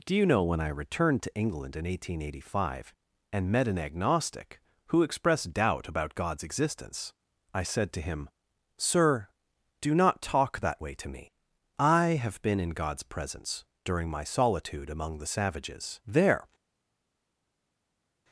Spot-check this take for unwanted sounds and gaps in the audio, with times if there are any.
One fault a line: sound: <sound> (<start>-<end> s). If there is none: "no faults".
no faults